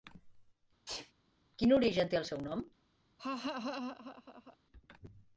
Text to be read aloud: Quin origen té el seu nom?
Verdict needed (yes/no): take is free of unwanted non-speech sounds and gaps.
no